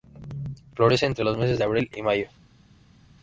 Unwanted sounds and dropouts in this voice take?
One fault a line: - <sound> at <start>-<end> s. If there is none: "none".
none